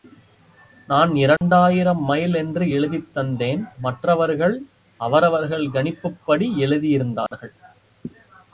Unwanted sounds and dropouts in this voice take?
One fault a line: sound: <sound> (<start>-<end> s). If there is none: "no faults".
sound: dropout (1.4-1.4 s)
sound: dropout (7.3-7.3 s)